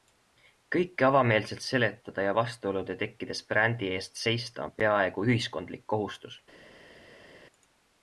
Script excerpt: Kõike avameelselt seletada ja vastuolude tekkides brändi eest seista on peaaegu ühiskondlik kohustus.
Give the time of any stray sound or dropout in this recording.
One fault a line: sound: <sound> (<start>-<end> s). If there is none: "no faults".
no faults